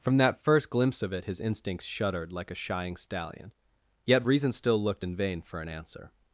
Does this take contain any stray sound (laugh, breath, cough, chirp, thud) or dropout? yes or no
no